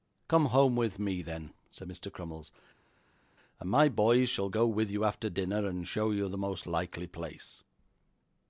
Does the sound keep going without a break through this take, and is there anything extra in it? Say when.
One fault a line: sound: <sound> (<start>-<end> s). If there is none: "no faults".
no faults